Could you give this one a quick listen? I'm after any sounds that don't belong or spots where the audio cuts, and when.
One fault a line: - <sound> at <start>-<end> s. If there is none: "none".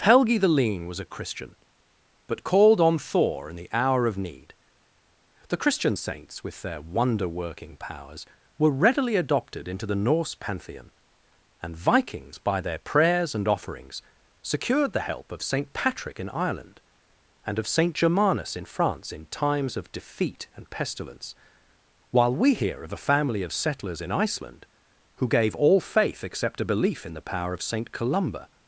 none